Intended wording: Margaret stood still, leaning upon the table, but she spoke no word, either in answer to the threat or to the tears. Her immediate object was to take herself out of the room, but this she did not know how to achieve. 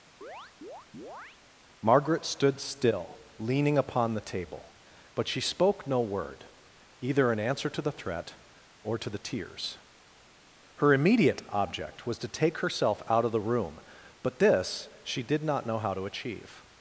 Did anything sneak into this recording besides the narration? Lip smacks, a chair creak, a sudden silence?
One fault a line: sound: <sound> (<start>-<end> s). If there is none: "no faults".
sound: chirp (0.2-1.4 s)